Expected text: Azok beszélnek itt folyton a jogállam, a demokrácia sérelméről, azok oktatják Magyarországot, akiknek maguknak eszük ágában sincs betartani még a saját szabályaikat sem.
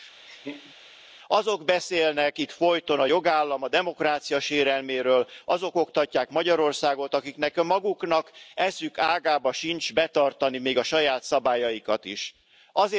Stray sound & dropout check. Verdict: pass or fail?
fail